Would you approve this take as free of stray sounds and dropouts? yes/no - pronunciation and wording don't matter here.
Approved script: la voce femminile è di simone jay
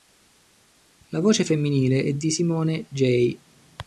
yes